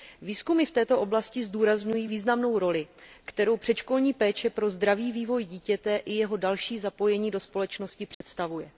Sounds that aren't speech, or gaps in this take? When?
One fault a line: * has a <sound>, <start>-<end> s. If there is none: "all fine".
* has a dropout, 8.1-8.2 s